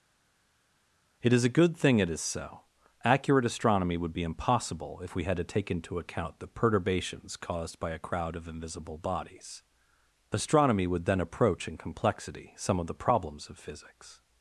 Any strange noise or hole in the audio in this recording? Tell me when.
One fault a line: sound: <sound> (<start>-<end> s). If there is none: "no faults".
no faults